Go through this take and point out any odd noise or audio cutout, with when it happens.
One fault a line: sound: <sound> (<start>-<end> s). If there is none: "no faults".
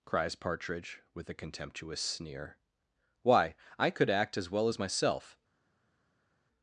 no faults